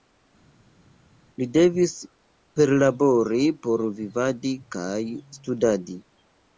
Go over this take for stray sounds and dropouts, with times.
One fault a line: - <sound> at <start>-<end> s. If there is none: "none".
none